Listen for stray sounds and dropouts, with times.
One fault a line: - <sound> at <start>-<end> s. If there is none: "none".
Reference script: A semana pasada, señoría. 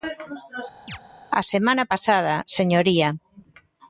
- chirp at 0.9-1.0 s